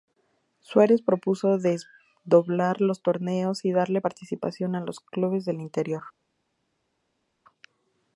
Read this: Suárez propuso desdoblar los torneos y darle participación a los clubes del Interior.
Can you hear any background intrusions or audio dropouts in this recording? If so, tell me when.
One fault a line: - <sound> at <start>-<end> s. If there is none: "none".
none